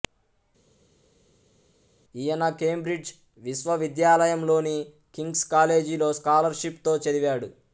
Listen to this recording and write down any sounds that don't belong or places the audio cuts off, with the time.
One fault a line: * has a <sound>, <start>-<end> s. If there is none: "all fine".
all fine